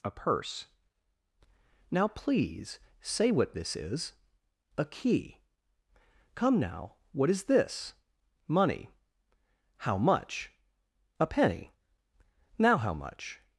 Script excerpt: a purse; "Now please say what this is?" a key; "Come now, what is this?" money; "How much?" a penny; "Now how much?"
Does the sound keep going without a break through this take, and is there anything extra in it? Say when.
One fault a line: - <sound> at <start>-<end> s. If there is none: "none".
none